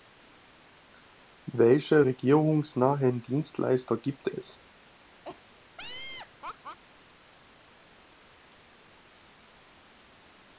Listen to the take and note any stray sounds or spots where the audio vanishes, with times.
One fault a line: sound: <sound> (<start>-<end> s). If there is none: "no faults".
sound: laugh (5.2-6.8 s)